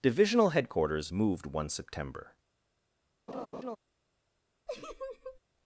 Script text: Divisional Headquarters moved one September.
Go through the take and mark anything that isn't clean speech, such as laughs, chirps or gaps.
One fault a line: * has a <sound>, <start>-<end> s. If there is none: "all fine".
* has a laugh, 3.3-3.8 s
* has a laugh, 4.7-5.4 s